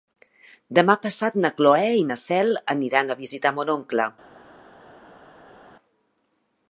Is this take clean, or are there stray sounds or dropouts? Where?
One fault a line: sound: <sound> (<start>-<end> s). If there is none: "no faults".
no faults